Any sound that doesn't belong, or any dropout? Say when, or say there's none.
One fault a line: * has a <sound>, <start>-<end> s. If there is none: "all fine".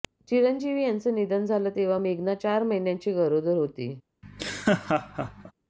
* has a laugh, 4.2-5.5 s